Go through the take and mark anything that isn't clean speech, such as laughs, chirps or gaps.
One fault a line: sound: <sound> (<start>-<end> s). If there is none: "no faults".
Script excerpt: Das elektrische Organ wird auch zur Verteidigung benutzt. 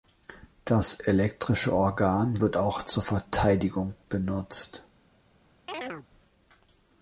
sound: chirp (5.7-6.1 s)